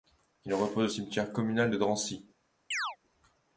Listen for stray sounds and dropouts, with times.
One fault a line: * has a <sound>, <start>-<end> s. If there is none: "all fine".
* has a chirp, 2.7-3.0 s